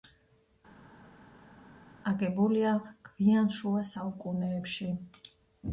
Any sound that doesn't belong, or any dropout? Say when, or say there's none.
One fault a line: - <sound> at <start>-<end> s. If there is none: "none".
none